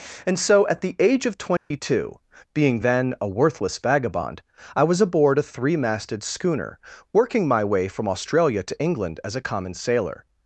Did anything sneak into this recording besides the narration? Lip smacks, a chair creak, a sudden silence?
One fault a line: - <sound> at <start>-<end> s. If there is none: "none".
- dropout at 1.6-1.7 s